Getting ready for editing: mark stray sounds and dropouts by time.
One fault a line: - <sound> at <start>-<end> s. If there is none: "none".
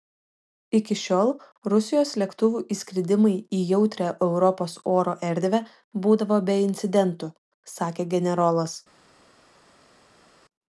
none